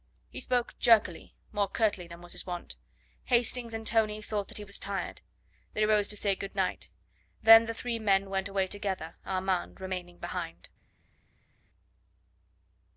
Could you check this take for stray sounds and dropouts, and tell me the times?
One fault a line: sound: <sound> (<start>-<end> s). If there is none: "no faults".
no faults